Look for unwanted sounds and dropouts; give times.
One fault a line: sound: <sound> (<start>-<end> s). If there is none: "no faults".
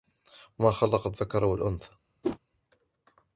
sound: whoosh (2.2-2.4 s)